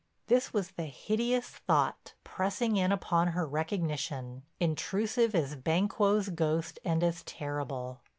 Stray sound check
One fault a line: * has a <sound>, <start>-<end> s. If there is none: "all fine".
all fine